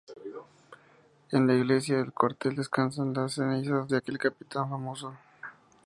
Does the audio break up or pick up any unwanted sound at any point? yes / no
no